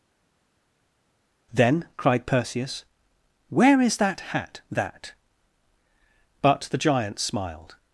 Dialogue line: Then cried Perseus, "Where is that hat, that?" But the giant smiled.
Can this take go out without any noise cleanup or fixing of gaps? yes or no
yes